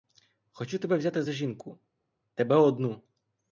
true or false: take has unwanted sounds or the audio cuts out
false